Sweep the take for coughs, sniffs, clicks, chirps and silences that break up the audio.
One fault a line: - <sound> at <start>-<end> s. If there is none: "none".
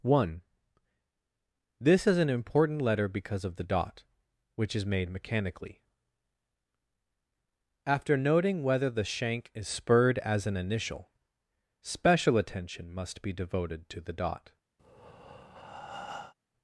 - breath at 14.8-16.3 s